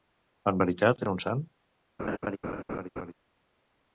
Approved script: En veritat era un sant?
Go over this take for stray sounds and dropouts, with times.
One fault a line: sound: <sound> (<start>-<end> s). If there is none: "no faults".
sound: laugh (2.0-3.1 s)